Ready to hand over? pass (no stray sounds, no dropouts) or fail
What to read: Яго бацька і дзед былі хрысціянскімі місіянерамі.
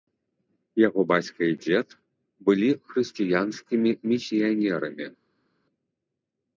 pass